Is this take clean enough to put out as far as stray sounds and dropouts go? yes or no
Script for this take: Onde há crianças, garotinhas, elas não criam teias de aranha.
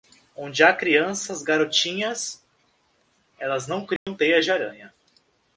no